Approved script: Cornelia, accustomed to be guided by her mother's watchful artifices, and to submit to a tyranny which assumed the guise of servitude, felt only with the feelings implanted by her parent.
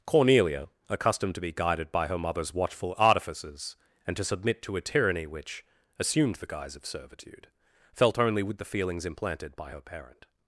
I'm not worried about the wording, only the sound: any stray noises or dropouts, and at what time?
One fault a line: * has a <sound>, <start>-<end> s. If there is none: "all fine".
all fine